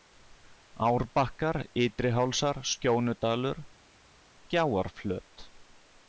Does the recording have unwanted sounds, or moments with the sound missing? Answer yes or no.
no